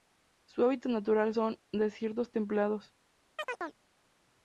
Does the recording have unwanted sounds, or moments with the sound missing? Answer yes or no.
yes